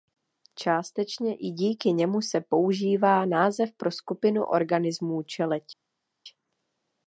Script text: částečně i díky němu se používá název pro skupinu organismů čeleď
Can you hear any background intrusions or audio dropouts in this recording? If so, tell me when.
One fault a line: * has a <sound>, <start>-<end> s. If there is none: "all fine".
all fine